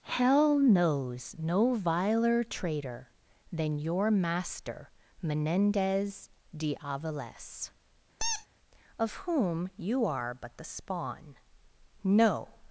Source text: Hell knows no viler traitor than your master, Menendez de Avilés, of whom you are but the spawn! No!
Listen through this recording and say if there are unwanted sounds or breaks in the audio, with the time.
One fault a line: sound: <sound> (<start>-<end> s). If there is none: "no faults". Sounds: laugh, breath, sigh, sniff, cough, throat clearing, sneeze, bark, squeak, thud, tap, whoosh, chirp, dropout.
sound: squeak (8.2-8.5 s)